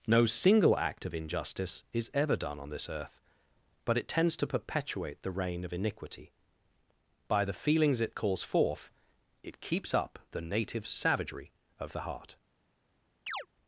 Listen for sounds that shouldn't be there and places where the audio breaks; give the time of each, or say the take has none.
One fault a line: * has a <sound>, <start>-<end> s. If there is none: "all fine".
* has a chirp, 13.3-13.5 s